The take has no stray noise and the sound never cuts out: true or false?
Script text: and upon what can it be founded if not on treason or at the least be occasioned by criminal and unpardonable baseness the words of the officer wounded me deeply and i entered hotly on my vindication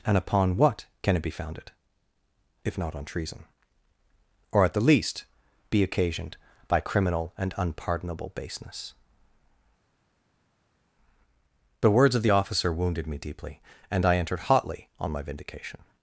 true